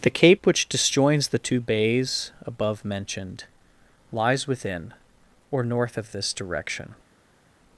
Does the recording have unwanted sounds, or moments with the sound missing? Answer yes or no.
no